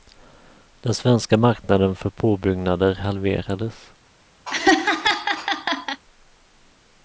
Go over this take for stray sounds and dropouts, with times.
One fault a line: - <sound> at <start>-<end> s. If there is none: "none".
- laugh at 4.5-6.0 s